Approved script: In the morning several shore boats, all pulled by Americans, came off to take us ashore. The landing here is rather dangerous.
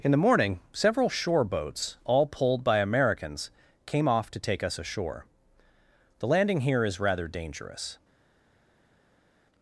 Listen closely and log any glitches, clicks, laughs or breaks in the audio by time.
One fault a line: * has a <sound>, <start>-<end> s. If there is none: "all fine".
all fine